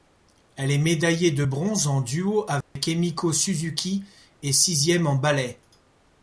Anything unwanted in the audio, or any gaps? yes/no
yes